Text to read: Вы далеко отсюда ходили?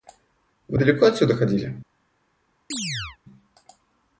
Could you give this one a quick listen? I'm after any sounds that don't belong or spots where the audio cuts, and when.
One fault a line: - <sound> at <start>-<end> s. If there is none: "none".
- chirp at 2.7-3.2 s